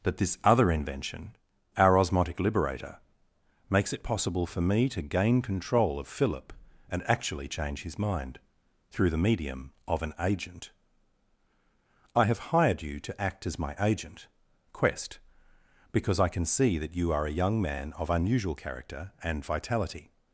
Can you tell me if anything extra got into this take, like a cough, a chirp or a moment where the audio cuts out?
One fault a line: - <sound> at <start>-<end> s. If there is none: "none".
none